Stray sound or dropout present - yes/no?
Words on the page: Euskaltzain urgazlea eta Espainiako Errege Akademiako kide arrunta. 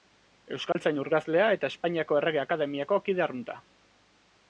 yes